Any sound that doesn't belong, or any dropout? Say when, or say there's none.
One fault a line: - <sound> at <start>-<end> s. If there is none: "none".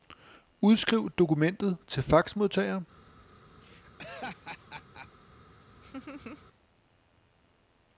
- laugh at 3.6-5.1 s
- laugh at 5.8-6.5 s